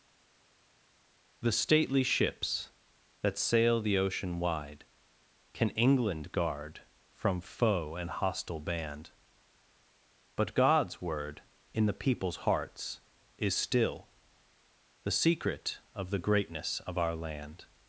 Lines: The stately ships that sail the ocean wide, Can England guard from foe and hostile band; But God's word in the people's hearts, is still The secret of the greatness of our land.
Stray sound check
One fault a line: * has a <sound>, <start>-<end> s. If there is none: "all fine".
all fine